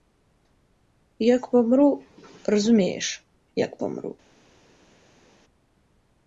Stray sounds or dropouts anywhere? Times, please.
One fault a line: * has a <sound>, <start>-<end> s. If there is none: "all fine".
all fine